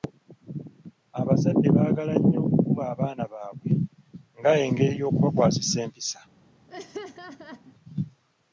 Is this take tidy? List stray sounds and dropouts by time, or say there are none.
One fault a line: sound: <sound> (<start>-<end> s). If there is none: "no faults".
sound: laugh (6.7-7.7 s)